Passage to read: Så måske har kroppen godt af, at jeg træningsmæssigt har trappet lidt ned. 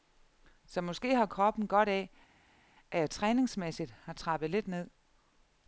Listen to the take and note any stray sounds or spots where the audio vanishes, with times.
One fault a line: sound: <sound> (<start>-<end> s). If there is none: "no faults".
no faults